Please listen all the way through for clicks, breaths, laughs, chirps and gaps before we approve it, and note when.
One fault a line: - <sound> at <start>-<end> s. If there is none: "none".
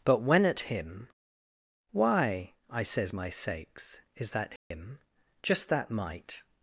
- dropout at 4.6-4.7 s